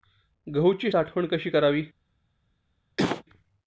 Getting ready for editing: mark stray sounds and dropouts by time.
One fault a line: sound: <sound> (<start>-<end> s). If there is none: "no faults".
sound: cough (3.0-3.2 s)